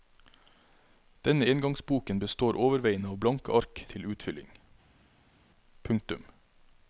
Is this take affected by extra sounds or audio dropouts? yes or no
no